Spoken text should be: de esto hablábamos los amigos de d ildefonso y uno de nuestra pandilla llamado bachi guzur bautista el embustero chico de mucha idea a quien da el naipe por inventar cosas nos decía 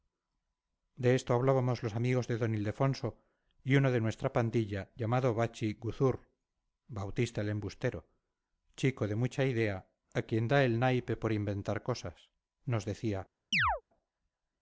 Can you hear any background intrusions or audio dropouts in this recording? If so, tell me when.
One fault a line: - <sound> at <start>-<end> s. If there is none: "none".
- chirp at 13.5-13.8 s